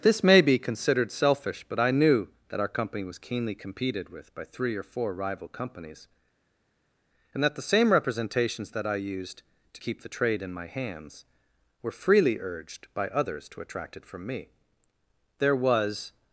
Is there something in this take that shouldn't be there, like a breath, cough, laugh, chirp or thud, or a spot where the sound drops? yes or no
no